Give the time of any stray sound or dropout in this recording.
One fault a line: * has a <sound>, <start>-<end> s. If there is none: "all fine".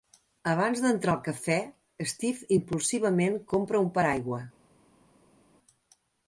all fine